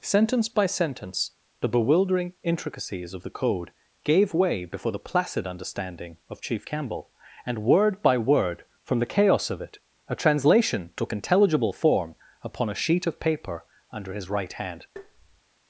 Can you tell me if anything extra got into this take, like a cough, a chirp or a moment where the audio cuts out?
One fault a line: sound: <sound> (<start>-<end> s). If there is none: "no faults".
sound: tap (15.0-15.4 s)